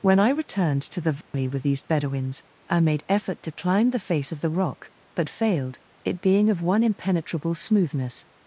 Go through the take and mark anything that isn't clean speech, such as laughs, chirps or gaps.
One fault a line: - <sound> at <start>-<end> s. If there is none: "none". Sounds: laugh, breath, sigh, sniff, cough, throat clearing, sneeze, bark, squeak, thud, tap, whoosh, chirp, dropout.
- dropout at 1.2-1.3 s